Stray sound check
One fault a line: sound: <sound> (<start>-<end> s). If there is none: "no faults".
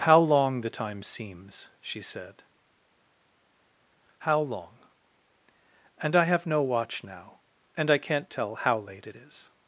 no faults